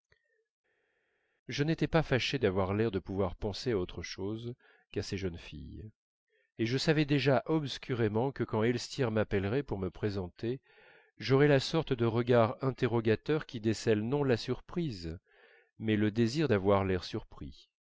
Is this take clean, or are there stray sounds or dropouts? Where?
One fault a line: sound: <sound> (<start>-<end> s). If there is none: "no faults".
no faults